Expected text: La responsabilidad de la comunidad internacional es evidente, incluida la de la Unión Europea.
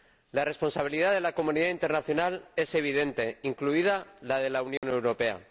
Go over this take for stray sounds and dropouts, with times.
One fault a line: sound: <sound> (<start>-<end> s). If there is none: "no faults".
sound: dropout (4.8-4.8 s)